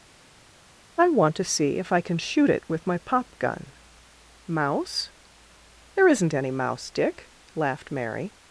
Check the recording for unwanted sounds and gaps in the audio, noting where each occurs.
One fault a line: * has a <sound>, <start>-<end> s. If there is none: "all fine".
all fine